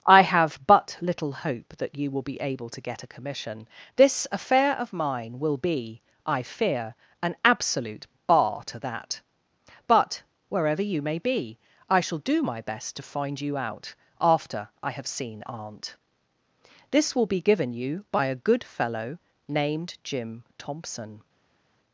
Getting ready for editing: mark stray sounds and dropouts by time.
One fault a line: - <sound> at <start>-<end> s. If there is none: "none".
none